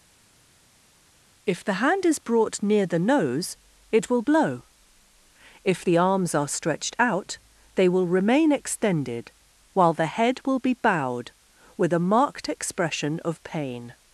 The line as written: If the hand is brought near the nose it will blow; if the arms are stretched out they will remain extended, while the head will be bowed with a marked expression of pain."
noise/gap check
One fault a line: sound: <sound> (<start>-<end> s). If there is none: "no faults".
no faults